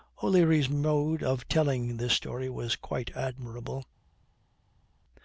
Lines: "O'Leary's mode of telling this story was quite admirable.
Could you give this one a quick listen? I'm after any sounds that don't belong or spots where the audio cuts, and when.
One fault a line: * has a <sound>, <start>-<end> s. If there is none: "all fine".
all fine